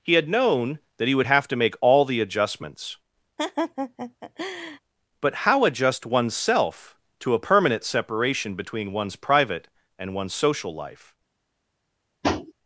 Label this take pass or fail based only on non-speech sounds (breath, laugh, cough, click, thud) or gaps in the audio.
fail